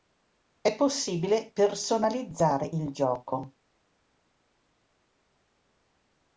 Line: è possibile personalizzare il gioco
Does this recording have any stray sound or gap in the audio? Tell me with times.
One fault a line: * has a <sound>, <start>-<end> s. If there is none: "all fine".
all fine